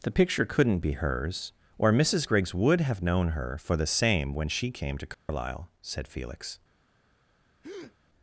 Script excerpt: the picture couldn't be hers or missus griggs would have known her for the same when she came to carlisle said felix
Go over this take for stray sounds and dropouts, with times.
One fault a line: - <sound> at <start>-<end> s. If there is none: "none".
- dropout at 5.1-5.3 s
- breath at 7.6-8.0 s